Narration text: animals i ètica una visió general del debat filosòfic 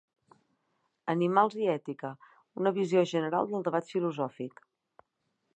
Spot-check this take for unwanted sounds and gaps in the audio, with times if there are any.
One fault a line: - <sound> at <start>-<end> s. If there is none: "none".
none